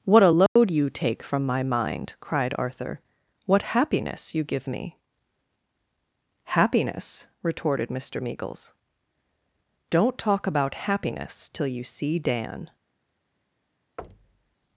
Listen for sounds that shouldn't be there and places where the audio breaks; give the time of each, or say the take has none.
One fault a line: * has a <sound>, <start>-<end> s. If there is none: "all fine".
* has a dropout, 0.5-0.6 s
* has a thud, 14.0-14.6 s